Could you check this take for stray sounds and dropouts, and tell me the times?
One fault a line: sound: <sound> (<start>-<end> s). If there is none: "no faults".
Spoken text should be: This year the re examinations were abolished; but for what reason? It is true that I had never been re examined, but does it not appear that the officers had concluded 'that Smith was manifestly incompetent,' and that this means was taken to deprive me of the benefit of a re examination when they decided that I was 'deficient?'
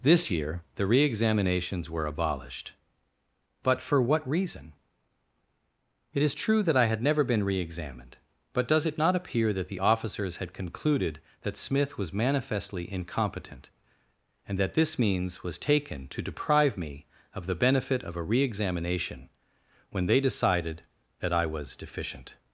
no faults